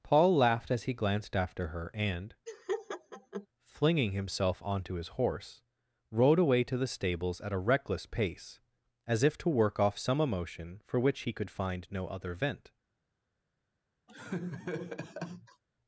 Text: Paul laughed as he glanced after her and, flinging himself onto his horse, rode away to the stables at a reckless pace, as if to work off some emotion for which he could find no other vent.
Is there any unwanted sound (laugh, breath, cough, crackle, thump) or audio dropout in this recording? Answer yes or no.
yes